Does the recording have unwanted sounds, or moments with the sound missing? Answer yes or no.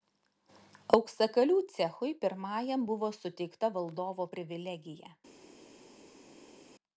no